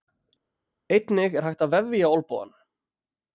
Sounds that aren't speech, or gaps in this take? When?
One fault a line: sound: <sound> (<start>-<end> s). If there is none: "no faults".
no faults